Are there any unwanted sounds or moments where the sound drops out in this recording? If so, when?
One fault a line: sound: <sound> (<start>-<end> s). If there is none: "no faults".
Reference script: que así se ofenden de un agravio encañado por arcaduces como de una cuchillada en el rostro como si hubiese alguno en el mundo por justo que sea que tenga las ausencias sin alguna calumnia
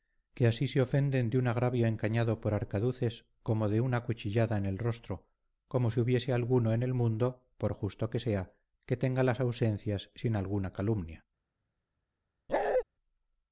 sound: bark (12.5-12.8 s)